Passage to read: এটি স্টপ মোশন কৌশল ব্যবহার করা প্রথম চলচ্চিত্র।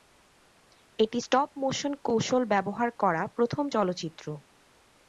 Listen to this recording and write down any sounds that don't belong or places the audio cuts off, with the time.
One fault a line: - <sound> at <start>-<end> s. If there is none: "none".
none